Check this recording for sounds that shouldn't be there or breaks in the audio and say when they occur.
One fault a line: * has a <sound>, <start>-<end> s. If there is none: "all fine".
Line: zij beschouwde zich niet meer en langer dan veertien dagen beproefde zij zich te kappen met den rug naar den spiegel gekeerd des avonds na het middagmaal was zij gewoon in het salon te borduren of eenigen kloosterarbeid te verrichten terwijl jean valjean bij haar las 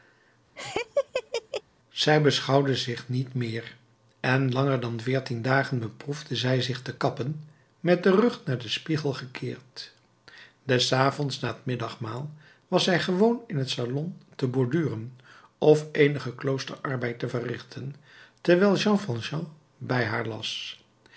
* has a laugh, 0.6-1.6 s